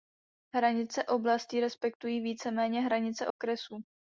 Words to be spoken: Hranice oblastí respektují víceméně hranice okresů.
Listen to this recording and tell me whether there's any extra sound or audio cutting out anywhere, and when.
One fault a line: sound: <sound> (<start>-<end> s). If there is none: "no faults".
sound: dropout (3.3-3.4 s)